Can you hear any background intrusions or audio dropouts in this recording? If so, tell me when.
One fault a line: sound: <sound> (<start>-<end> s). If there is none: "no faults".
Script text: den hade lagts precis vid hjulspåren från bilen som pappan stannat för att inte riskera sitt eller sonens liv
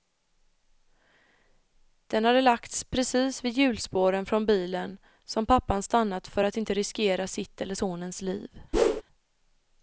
sound: whoosh (8.7-9.0 s)